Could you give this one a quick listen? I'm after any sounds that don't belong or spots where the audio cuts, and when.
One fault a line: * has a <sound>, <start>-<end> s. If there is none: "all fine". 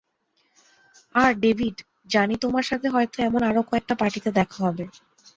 all fine